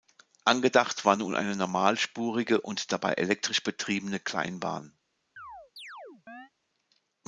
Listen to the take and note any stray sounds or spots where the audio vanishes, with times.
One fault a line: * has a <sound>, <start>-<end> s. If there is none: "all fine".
* has a chirp, 5.4-6.5 s